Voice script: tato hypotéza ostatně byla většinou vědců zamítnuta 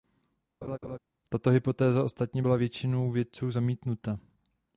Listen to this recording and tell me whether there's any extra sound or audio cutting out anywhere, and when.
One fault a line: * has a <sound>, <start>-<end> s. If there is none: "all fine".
* has a laugh, 0.6-1.0 s